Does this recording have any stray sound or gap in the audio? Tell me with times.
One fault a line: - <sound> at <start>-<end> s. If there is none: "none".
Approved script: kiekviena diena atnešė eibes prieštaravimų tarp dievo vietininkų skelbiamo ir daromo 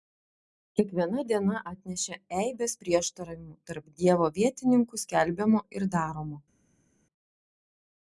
none